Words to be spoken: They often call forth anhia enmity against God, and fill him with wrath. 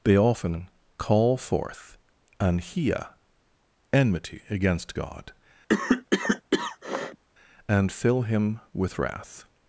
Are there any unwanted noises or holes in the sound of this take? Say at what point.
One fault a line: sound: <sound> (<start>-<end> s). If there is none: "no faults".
sound: cough (5.7-7.2 s)